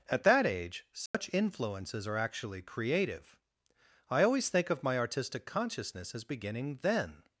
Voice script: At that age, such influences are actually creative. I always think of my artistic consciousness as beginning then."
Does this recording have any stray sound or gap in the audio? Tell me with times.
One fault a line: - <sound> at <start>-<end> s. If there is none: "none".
- dropout at 1.1-1.1 s